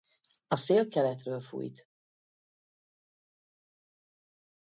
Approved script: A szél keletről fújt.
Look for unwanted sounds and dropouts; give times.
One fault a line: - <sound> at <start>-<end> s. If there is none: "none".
none